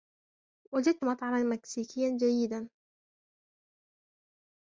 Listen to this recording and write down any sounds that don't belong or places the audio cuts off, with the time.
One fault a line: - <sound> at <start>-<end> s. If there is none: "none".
none